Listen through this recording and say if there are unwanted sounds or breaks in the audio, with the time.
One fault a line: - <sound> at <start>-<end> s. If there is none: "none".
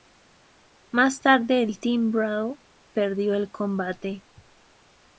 none